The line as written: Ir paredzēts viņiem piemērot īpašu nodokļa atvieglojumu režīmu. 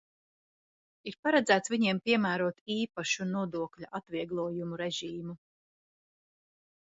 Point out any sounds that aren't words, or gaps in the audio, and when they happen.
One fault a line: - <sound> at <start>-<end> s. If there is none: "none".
none